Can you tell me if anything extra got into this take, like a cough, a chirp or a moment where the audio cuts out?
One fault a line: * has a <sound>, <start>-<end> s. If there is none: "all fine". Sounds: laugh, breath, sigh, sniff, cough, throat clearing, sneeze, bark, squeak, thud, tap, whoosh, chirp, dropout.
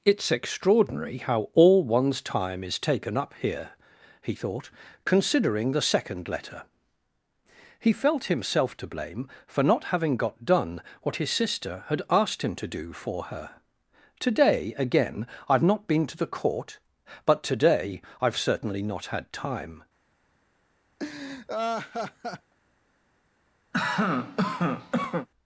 * has a laugh, 21.0-22.5 s
* has a cough, 23.7-25.3 s